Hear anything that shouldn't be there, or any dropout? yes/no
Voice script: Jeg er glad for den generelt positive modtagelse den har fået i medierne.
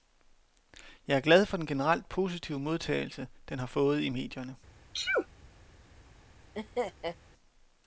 yes